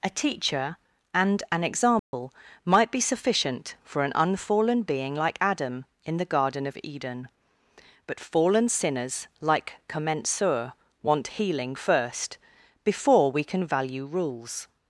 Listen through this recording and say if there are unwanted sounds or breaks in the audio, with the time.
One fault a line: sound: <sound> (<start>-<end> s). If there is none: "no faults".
sound: dropout (2.0-2.1 s)